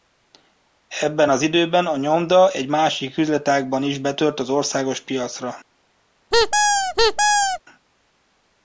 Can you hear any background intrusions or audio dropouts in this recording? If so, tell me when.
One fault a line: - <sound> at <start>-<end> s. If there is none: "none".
- squeak at 6.3-7.6 s